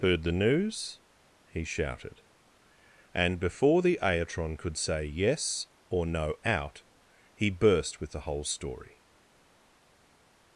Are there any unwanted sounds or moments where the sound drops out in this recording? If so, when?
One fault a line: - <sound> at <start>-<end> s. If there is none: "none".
none